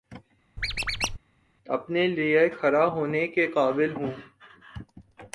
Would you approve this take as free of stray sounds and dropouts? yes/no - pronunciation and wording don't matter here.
no